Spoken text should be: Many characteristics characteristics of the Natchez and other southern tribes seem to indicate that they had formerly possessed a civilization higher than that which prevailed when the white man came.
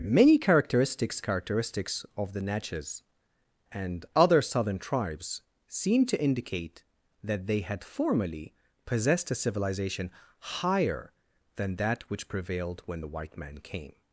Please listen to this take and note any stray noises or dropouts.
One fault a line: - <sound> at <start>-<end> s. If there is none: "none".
none